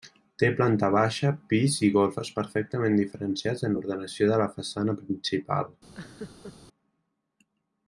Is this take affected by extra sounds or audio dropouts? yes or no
yes